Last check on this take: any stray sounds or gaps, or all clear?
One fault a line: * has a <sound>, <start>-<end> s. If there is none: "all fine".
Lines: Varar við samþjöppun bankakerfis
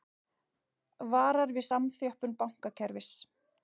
all fine